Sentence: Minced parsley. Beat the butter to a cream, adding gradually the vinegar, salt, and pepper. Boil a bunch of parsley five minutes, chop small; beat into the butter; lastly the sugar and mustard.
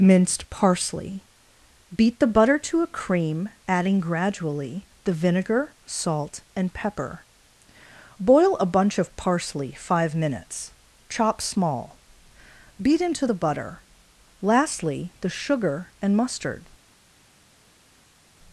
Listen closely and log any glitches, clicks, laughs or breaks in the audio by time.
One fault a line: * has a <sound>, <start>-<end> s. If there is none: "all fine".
all fine